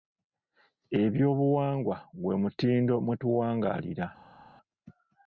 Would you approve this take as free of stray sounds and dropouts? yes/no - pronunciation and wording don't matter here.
yes